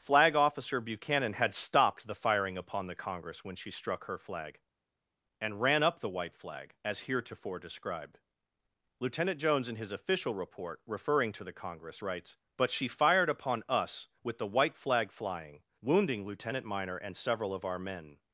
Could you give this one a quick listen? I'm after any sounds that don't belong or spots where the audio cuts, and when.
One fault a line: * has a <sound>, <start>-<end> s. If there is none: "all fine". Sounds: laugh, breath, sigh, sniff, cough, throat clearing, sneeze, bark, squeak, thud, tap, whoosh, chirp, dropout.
all fine